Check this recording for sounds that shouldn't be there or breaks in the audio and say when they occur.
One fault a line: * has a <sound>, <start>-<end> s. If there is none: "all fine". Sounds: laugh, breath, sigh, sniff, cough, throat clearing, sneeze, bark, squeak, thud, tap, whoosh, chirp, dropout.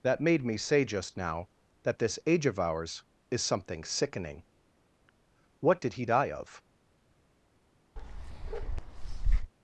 * has a bark, 8.0-9.5 s